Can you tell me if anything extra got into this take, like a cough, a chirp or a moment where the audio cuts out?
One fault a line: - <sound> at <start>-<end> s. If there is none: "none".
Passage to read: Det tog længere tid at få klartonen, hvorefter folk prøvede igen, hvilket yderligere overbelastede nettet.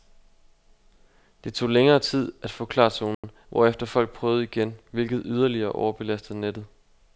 - dropout at 3.1-3.2 s